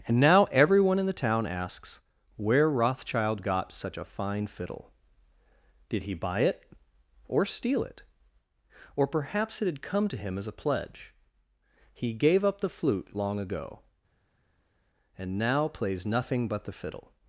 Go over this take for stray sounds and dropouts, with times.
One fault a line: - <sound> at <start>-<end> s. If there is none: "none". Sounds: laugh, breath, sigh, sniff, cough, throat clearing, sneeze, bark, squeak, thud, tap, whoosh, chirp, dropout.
none